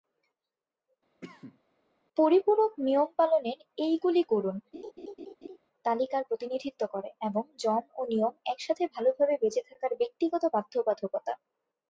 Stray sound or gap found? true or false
true